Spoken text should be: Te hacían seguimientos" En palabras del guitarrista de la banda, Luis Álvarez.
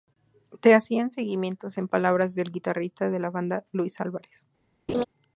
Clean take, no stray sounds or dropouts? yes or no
no